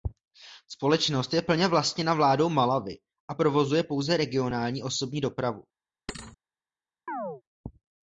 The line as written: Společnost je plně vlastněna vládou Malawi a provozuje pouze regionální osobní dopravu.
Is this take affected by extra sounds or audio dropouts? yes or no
yes